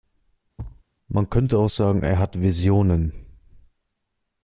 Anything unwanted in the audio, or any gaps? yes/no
yes